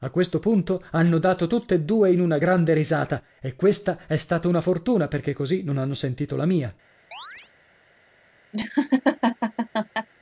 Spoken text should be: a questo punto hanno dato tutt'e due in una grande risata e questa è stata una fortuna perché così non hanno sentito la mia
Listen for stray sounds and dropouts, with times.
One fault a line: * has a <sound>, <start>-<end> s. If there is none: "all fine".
* has a chirp, 7.1-7.5 s
* has a laugh, 8.5-10.1 s